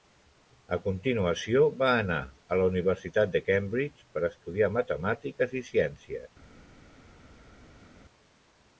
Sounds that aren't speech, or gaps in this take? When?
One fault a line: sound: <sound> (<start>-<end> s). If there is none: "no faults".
no faults